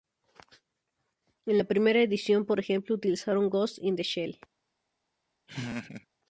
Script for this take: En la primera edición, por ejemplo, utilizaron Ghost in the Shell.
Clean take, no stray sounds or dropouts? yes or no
no